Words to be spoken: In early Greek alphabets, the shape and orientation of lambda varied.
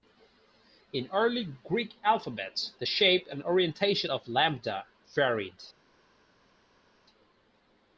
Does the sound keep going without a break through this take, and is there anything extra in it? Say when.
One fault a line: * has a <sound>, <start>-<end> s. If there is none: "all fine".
all fine